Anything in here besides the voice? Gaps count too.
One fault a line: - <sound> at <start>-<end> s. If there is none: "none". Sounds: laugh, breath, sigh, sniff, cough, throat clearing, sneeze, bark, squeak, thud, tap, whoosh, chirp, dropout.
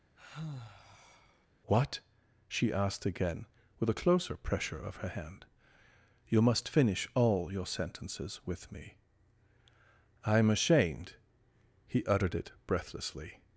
- sigh at 0.1-1.5 s